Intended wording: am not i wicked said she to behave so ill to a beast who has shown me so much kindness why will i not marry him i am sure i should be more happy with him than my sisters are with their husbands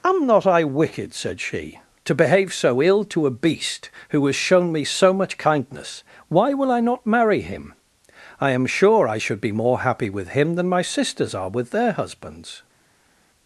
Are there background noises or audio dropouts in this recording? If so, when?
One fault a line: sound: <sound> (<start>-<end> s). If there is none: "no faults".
no faults